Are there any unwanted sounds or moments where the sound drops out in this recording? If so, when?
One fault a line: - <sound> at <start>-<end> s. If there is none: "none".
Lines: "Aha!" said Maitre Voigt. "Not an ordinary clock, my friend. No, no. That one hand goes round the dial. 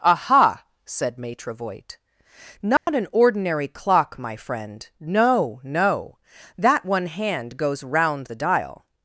- dropout at 2.8-2.9 s